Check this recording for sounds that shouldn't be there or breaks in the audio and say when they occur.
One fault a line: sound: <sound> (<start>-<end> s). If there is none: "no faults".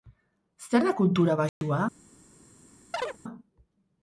sound: dropout (1.5-1.6 s)
sound: chirp (2.9-3.2 s)